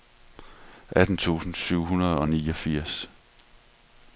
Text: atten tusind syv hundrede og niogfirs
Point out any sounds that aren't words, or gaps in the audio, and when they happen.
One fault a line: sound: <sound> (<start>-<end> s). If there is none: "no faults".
no faults